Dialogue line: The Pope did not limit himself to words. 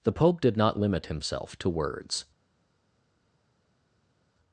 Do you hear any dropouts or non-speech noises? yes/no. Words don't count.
no